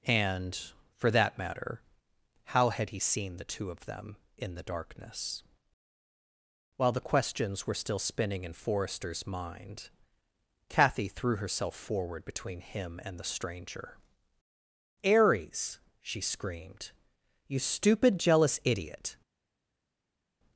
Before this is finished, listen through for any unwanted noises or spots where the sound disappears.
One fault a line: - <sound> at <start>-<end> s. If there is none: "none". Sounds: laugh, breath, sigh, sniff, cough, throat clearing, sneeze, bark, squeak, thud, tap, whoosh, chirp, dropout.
none